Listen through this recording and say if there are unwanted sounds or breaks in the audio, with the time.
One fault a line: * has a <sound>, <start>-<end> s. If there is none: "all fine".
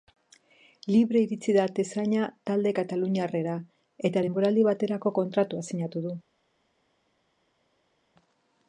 all fine